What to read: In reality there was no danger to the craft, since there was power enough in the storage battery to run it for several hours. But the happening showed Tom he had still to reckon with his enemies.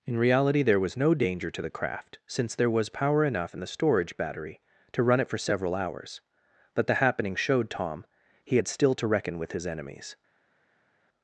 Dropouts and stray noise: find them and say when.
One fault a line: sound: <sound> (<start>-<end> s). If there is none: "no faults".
no faults